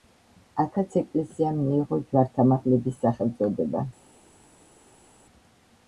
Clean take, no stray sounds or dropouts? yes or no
yes